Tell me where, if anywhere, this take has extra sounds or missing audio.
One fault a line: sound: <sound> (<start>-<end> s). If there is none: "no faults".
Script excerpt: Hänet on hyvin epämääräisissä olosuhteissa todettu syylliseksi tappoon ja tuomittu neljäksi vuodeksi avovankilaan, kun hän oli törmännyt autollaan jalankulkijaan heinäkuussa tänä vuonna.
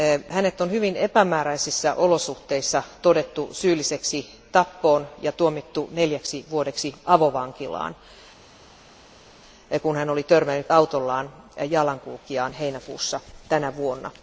no faults